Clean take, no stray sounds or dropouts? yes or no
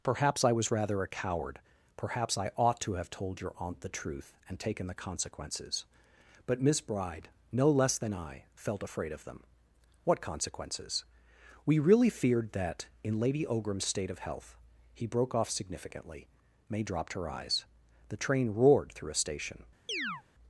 no